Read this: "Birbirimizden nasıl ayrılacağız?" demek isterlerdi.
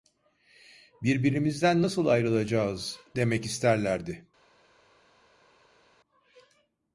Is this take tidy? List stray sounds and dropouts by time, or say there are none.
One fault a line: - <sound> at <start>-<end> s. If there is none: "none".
none